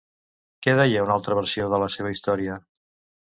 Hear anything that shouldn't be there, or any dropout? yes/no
no